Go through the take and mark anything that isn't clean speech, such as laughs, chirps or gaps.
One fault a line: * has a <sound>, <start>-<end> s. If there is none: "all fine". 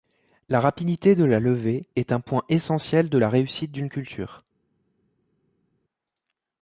all fine